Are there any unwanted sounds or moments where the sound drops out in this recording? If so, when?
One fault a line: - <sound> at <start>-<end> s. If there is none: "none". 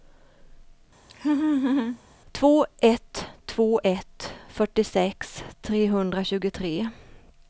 - laugh at 1.1-2.0 s